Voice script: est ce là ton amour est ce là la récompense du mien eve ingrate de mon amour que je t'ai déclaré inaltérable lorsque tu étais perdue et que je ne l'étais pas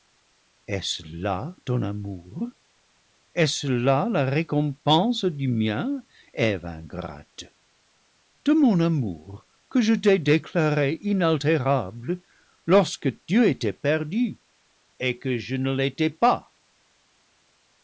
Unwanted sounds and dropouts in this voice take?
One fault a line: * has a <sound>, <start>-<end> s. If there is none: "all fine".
all fine